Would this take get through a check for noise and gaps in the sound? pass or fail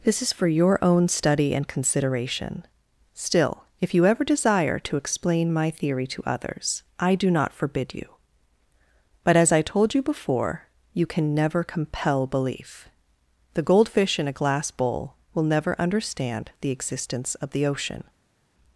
pass